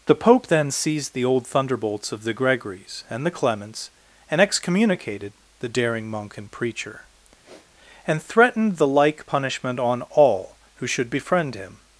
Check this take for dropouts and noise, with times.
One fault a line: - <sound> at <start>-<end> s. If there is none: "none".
- sniff at 7.4-7.7 s